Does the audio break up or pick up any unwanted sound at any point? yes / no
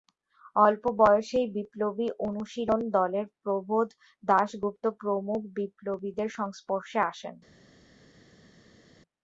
no